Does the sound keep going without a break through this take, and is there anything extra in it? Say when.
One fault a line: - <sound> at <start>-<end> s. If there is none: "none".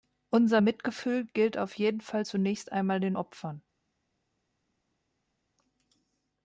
none